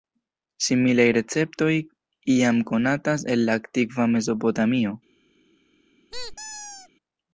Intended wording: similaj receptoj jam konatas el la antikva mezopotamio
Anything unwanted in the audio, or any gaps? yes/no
yes